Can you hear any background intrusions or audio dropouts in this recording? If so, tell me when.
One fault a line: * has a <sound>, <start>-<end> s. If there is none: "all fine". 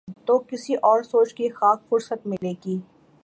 * has a dropout, 2.4-2.4 s